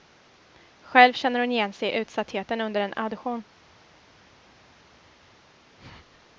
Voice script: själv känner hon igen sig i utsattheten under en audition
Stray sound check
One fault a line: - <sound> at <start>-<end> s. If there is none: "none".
none